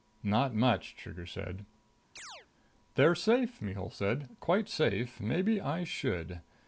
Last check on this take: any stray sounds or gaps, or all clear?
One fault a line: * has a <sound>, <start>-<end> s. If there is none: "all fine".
* has a chirp, 2.2-2.5 s